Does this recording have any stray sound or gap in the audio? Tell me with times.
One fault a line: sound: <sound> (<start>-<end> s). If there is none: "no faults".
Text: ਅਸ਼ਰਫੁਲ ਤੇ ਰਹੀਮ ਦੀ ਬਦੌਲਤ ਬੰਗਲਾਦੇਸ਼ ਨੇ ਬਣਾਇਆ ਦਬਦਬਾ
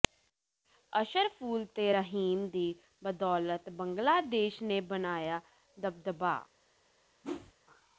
sound: whoosh (7.2-7.5 s)